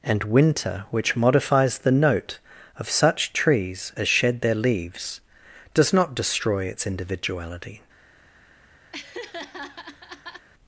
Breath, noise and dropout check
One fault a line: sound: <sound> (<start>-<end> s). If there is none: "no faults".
sound: laugh (8.9-10.5 s)